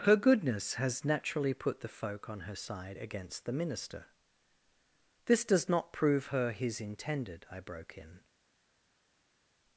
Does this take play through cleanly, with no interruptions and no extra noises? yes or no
yes